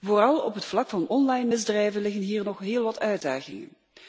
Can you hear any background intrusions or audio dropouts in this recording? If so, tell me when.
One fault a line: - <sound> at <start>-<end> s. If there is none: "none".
none